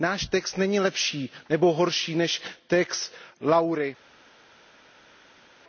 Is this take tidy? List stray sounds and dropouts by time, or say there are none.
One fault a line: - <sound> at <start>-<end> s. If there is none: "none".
none